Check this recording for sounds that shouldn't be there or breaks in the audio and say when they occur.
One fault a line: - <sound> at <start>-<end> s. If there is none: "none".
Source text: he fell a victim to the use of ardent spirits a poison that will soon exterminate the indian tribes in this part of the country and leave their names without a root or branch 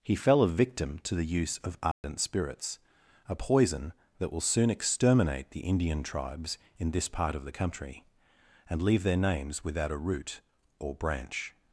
- dropout at 1.9-2.0 s